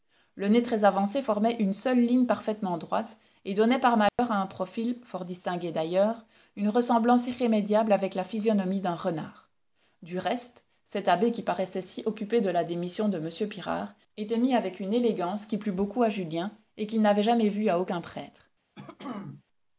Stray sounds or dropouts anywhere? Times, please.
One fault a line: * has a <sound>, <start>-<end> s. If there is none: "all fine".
* has a dropout, 4.1-4.2 s
* has a throat clearing, 18.8-19.4 s